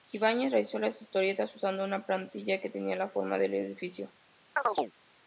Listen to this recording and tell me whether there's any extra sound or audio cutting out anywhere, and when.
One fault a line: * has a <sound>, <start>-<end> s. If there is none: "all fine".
* has a chirp, 4.6-4.9 s